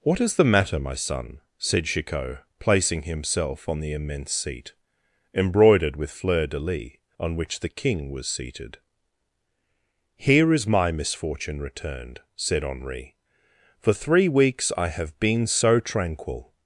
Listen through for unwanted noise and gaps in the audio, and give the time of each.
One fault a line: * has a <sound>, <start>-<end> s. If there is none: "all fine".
all fine